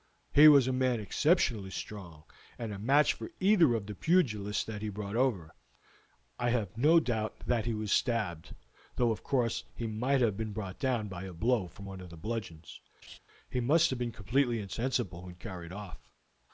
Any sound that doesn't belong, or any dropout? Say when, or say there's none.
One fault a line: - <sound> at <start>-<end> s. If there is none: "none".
- laugh at 13.0-13.2 s